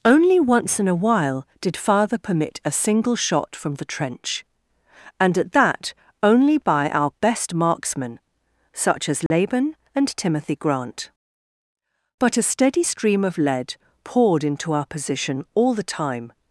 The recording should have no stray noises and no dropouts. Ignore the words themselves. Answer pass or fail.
fail